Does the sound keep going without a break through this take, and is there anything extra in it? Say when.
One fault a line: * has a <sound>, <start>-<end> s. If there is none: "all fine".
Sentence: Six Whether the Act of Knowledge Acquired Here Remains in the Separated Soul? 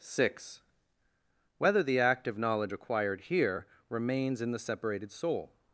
all fine